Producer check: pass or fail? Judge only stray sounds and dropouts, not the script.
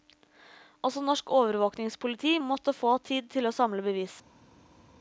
pass